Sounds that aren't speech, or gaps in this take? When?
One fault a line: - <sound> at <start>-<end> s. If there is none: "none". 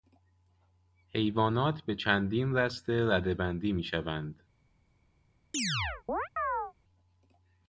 - chirp at 5.5-6.7 s